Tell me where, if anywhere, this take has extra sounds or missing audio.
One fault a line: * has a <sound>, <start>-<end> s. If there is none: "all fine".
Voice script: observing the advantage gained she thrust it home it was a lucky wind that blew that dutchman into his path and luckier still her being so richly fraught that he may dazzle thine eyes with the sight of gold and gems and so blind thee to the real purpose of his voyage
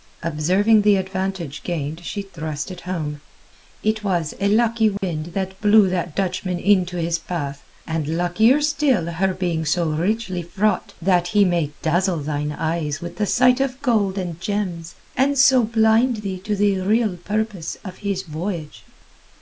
* has a dropout, 5.0-5.0 s